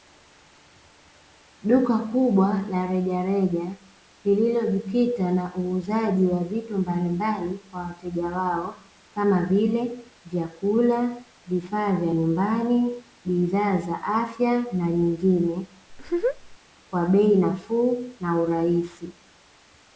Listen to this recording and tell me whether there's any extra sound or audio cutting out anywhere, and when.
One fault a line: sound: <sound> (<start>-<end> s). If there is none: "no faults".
sound: laugh (15.9-16.6 s)